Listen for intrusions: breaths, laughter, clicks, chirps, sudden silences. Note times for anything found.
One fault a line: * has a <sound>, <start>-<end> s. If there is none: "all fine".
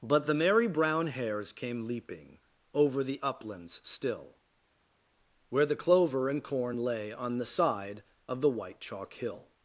all fine